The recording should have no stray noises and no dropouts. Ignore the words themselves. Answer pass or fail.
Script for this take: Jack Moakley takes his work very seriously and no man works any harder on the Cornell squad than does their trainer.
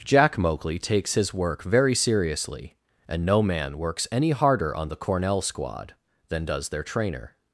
pass